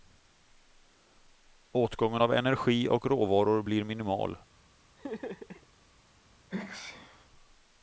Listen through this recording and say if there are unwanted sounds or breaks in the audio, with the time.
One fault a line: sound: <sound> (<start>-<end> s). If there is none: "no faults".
sound: laugh (5.0-5.7 s)
sound: sneeze (6.5-7.3 s)